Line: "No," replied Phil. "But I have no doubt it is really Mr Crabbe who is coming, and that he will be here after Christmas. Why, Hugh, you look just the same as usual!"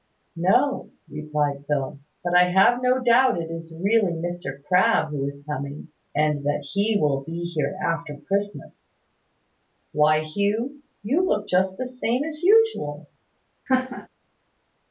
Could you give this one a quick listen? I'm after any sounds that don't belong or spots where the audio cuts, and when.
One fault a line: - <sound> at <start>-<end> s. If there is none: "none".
- laugh at 13.7-14.1 s